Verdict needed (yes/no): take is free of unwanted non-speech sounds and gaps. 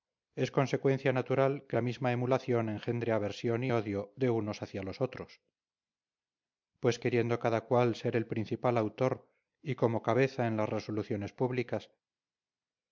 yes